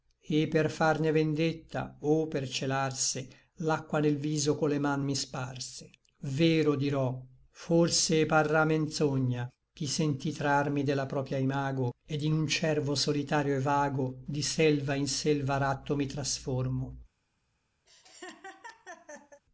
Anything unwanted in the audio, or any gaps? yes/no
yes